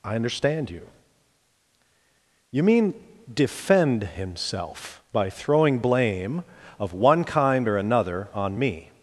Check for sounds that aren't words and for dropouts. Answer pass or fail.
pass